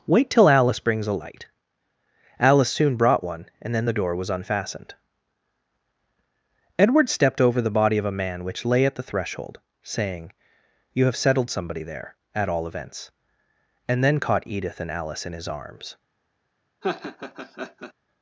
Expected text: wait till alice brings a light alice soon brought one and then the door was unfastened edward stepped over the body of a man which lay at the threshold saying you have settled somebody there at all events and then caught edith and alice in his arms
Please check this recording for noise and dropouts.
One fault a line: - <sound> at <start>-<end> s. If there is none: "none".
- laugh at 16.8-17.9 s